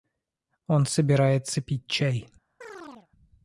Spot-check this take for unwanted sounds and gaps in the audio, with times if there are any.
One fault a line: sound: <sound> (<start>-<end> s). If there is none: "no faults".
sound: chirp (2.6-3.1 s)